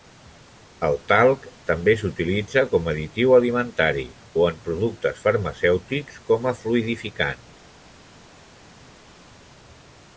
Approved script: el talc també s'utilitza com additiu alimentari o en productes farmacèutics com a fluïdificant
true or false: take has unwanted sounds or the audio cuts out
false